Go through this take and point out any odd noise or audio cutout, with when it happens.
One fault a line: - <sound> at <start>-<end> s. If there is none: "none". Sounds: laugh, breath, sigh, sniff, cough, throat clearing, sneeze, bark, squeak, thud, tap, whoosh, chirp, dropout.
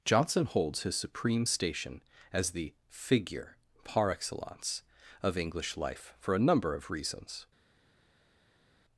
none